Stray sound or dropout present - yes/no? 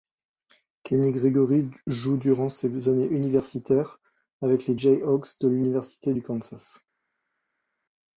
no